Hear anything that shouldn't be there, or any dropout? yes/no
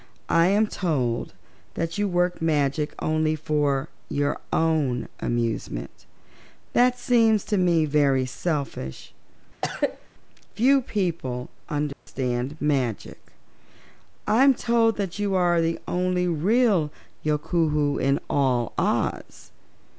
yes